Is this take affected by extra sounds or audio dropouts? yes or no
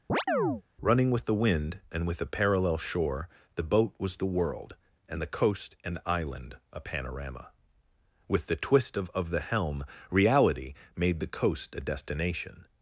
yes